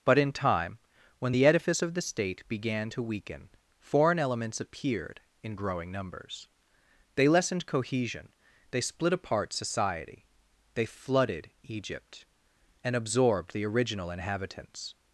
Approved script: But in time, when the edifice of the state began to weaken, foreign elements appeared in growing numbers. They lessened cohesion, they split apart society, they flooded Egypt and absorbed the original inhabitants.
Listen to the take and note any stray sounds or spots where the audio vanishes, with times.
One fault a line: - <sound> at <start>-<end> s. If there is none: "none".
none